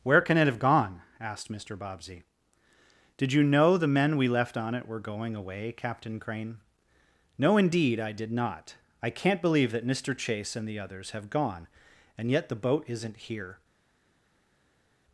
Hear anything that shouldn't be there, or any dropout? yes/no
no